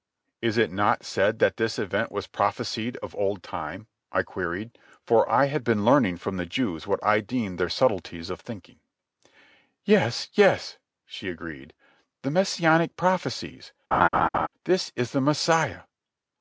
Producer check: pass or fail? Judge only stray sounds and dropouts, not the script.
fail